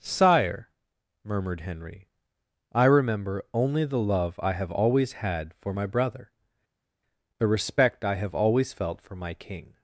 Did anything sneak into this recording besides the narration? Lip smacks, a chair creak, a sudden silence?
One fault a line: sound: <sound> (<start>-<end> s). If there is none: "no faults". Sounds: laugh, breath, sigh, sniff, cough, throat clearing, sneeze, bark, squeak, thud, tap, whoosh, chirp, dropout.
no faults